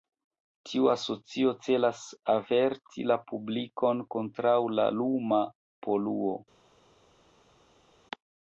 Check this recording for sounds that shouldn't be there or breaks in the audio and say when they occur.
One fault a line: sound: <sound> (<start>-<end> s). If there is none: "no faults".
no faults